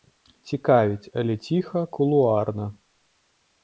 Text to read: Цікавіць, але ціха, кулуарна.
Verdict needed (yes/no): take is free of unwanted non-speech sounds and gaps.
yes